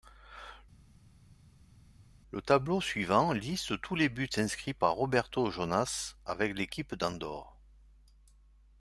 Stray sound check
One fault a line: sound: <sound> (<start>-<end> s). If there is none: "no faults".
no faults